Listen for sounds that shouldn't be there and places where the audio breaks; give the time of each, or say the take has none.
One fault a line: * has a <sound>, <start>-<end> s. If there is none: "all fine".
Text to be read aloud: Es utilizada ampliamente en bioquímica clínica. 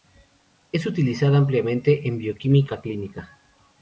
all fine